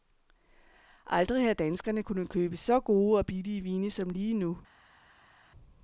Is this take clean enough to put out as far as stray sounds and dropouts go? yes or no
yes